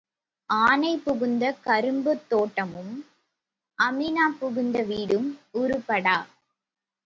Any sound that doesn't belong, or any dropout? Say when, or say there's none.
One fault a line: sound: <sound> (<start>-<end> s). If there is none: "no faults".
no faults